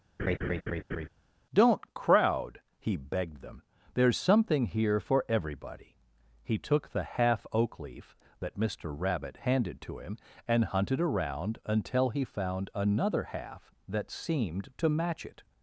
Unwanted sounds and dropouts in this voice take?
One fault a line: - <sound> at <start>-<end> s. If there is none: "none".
- laugh at 0.2-1.1 s